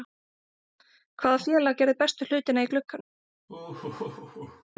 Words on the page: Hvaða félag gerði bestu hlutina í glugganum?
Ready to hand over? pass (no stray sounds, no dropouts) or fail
fail